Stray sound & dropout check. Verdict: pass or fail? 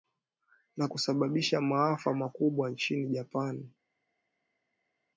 pass